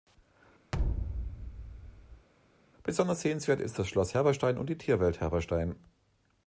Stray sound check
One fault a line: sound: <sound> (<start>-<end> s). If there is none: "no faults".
sound: thud (0.7-2.3 s)